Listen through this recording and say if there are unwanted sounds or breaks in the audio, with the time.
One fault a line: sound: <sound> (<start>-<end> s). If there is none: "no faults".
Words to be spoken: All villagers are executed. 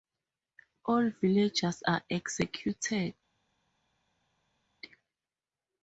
no faults